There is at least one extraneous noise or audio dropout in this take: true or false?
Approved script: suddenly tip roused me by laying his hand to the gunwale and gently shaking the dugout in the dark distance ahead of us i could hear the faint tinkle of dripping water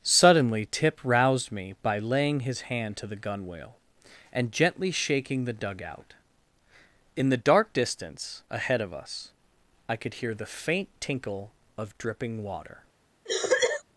true